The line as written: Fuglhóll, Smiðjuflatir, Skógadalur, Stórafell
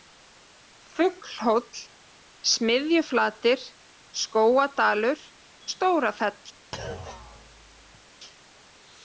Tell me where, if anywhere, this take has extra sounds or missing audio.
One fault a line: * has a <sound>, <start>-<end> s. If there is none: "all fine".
* has a thud, 6.7-8.1 s